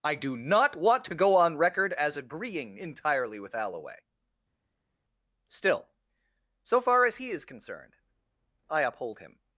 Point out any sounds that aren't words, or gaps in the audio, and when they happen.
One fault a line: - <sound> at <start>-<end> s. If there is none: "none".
none